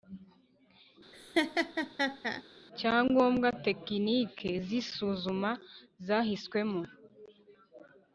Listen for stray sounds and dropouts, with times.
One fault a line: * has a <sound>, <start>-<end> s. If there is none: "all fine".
* has a laugh, 1.1-2.4 s